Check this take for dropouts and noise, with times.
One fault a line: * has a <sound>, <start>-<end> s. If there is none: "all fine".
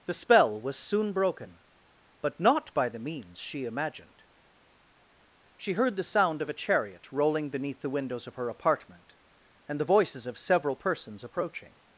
all fine